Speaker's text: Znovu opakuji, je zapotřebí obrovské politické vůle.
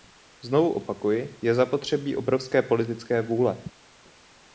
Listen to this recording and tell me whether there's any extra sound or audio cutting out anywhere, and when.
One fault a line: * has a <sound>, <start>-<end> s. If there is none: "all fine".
all fine